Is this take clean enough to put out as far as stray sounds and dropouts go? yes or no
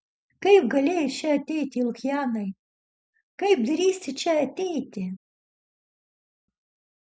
yes